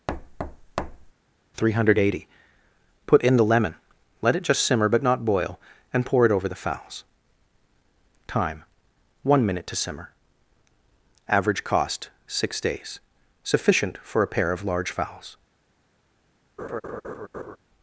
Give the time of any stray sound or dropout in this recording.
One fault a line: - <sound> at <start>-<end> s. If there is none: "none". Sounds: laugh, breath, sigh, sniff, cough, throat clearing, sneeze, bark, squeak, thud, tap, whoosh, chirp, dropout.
- thud at 0.1-1.1 s
- laugh at 16.6-17.6 s